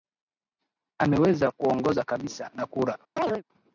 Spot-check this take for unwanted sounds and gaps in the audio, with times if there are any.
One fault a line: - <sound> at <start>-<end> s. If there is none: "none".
- chirp at 3.2-3.4 s